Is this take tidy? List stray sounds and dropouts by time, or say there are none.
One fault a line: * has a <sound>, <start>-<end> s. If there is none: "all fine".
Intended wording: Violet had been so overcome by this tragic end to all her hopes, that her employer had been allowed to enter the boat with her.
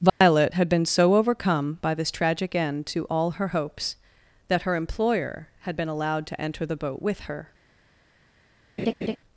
* has a dropout, 0.1-0.2 s
* has a laugh, 8.8-9.2 s